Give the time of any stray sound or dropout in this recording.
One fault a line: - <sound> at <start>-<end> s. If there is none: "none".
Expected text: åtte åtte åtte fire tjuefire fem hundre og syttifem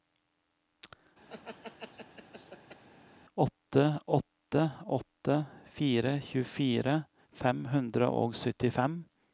- laugh at 1.3-2.8 s